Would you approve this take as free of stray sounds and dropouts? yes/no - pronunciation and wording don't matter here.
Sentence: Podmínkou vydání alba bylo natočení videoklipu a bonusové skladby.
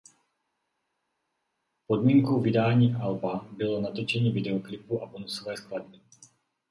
yes